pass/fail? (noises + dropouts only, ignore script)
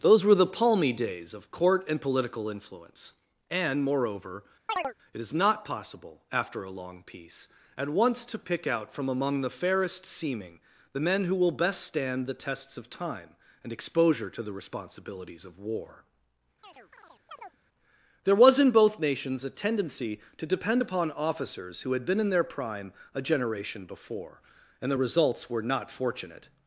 fail